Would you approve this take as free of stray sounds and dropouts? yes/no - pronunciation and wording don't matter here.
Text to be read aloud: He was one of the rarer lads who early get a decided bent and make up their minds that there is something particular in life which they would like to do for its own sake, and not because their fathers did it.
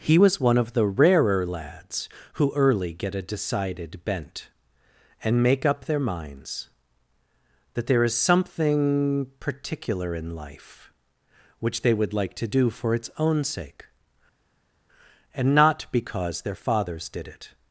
yes